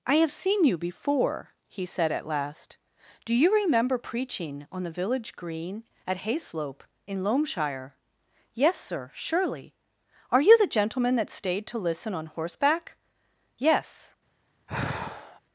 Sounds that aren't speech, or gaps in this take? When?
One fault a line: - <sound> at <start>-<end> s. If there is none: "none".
- sigh at 14.7-15.4 s